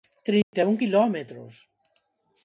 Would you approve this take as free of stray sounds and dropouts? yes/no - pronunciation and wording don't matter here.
no